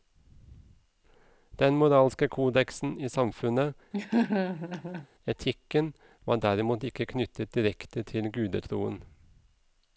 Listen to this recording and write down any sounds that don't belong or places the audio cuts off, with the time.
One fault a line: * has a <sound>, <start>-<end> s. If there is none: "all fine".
* has a laugh, 3.9-5.1 s